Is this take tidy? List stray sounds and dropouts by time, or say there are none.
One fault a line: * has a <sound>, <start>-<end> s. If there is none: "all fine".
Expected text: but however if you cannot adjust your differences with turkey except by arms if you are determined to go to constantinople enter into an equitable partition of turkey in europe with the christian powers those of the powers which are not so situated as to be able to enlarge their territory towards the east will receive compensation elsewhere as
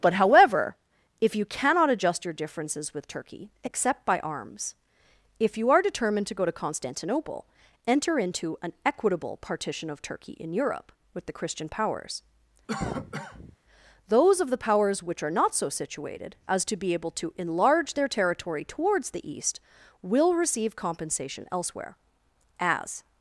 * has a cough, 12.7-13.6 s